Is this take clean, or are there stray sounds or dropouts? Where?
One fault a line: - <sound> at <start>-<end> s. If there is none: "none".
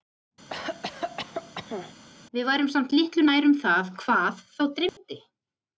- cough at 0.5-1.9 s
- dropout at 4.9-5.0 s